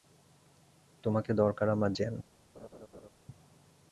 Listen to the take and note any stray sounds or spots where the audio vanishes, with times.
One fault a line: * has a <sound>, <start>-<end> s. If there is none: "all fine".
* has a laugh, 2.5-3.1 s